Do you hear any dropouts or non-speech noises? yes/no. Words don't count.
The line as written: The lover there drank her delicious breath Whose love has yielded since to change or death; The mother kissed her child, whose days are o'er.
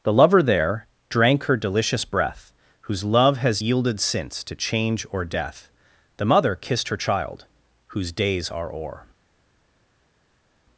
no